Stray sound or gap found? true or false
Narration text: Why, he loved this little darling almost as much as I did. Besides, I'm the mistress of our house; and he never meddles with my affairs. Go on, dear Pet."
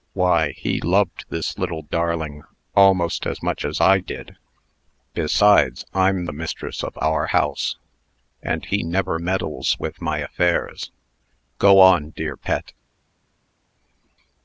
false